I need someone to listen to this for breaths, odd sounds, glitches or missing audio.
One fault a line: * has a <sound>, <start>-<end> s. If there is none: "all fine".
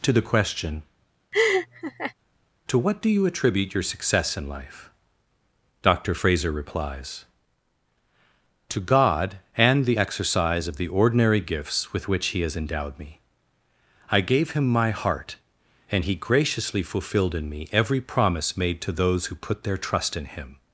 * has a laugh, 1.3-2.1 s